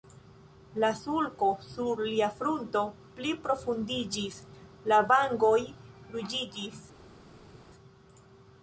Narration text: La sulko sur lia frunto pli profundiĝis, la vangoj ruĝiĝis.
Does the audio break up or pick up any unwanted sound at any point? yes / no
no